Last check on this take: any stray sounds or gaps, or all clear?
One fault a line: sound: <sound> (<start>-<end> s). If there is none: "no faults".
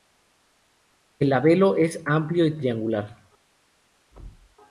sound: thud (4.1-4.6 s)